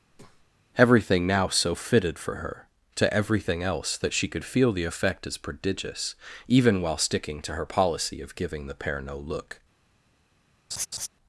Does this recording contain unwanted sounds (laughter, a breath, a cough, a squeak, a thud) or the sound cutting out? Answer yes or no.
yes